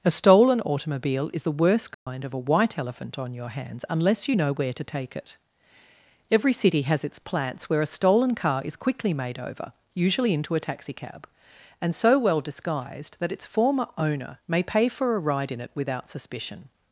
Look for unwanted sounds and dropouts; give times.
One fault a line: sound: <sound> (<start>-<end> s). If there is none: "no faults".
sound: dropout (1.9-2.1 s)